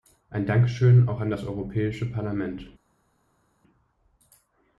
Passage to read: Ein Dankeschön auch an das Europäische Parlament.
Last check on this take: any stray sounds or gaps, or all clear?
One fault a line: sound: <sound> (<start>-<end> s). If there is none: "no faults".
no faults